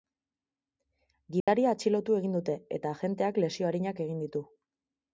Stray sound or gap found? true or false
true